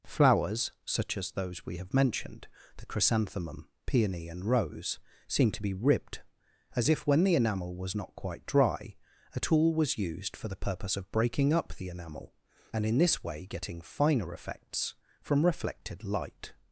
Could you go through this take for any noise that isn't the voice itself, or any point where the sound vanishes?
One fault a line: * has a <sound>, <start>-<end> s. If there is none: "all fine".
all fine